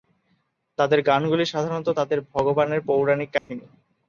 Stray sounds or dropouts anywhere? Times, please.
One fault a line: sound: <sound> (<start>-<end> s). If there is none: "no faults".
sound: dropout (3.4-3.5 s)